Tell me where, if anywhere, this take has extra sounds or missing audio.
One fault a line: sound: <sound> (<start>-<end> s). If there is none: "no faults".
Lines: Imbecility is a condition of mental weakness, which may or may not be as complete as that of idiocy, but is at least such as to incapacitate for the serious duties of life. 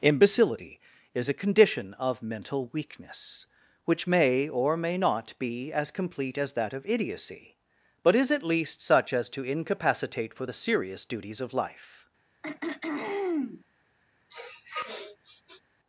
sound: throat clearing (12.4-13.6 s)
sound: sniff (14.3-15.6 s)